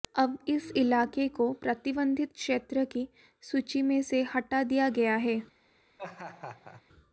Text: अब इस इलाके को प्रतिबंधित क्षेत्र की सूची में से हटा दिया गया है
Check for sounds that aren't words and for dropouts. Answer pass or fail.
fail